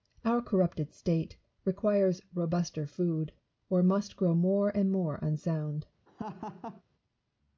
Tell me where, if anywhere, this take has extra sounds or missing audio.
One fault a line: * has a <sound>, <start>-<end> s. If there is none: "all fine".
* has a laugh, 6.1-6.8 s